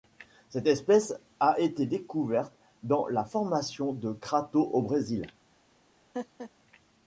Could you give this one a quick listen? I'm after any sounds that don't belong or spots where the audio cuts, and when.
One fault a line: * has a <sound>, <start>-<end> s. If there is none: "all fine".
* has a laugh, 6.1-6.5 s